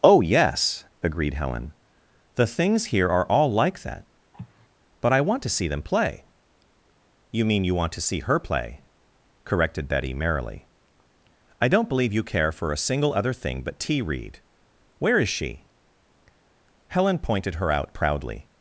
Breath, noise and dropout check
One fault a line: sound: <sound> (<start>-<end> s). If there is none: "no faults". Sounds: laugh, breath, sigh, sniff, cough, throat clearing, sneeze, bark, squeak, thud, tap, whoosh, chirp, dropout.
sound: cough (4.3-4.7 s)